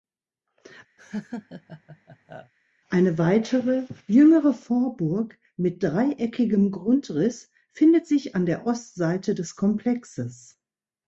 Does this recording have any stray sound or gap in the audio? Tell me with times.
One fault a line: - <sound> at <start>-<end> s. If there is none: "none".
- laugh at 1.0-2.5 s